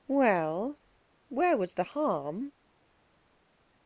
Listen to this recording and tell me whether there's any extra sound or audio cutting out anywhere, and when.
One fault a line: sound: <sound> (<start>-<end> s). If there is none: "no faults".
no faults